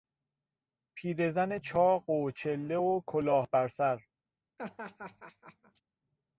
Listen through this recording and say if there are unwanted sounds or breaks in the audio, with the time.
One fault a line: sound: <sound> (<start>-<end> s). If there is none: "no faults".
sound: laugh (4.6-5.8 s)